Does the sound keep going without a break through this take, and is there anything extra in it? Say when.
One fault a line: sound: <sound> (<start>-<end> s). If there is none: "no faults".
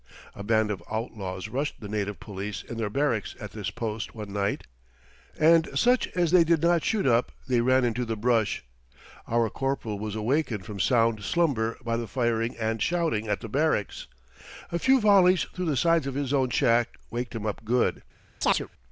sound: chirp (18.4-18.7 s)